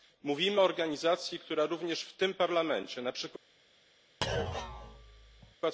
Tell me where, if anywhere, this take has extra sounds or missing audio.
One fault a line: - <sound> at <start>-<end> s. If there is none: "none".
- thud at 4.2-5.6 s